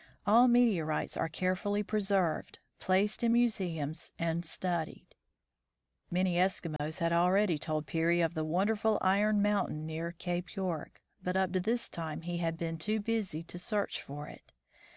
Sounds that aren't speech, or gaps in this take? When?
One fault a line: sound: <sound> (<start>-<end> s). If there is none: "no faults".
sound: dropout (6.8-6.8 s)